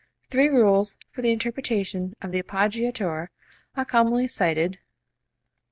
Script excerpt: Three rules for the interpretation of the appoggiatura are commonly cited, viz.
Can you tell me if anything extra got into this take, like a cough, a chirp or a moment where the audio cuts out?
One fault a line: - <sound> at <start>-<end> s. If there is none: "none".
none